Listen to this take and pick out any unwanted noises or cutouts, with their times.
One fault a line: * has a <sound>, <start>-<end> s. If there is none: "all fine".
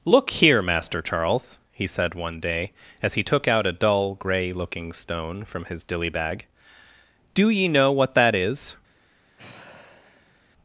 * has a sigh, 9.4-10.4 s